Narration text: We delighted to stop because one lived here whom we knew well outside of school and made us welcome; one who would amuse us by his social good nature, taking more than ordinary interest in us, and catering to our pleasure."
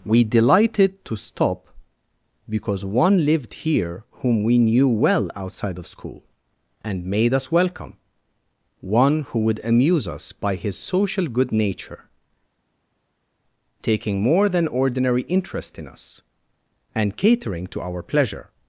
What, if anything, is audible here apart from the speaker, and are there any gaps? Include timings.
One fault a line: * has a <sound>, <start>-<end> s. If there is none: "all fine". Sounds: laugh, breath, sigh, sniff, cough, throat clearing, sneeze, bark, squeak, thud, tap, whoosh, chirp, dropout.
all fine